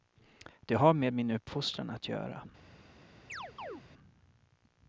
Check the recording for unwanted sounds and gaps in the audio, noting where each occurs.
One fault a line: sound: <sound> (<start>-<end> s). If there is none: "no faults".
sound: chirp (3.3-3.8 s)